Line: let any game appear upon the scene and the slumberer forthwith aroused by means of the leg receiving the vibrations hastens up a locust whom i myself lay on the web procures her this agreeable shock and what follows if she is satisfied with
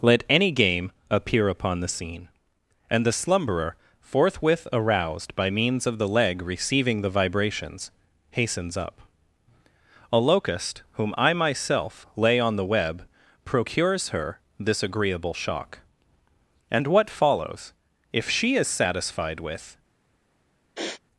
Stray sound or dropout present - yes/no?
yes